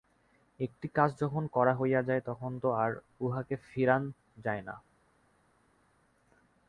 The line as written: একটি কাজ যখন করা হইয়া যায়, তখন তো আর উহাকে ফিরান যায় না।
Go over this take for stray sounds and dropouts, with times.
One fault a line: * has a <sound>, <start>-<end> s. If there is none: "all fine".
all fine